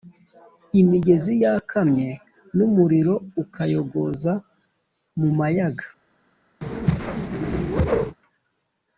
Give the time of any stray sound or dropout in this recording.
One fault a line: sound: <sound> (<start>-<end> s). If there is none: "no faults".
sound: whoosh (6.6-8.2 s)